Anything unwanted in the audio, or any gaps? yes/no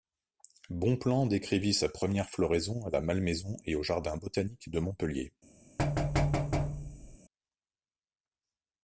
yes